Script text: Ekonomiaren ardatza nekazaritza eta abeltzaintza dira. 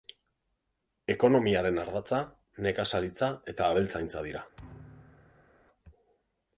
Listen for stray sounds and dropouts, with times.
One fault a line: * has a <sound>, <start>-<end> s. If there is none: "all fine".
* has a thud, 4.6-5.6 s